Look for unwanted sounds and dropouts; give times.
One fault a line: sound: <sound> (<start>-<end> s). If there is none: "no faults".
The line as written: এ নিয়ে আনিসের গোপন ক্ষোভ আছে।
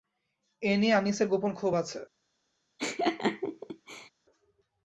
sound: laugh (2.8-4.1 s)